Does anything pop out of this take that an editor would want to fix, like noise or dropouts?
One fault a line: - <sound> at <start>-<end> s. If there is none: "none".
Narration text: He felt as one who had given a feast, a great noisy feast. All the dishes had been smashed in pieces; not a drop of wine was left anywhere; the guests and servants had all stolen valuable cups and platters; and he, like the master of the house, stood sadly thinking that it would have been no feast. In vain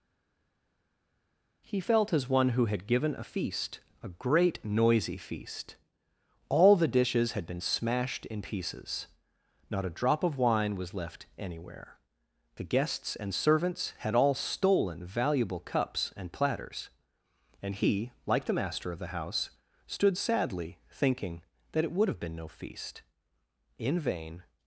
none